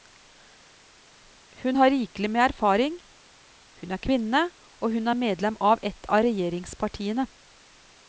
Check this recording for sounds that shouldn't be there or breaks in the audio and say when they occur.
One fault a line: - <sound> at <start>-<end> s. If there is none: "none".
none